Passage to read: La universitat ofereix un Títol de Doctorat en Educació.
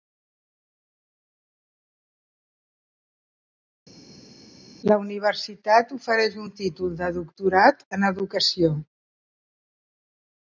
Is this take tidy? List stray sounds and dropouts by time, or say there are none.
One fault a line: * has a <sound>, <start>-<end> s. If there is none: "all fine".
all fine